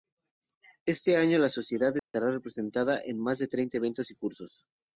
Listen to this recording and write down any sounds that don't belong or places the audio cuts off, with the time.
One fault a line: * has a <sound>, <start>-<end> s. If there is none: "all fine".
* has a dropout, 2.0-2.1 s